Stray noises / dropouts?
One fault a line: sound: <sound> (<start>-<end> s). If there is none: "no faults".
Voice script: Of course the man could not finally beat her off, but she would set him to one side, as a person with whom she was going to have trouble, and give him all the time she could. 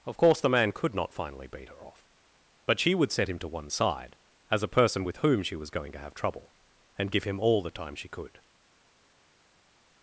no faults